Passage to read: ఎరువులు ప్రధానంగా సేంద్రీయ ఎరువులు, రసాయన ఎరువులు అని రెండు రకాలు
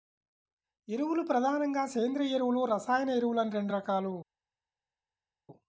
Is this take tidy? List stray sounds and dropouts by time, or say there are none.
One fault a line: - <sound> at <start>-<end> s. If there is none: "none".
none